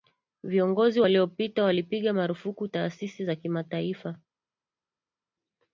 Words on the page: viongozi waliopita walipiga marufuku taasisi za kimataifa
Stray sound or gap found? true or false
false